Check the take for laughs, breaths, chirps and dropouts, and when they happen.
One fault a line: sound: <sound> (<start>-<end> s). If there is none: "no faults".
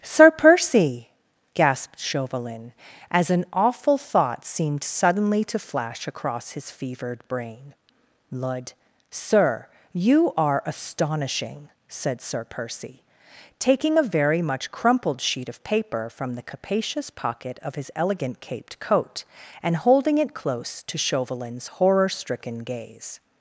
no faults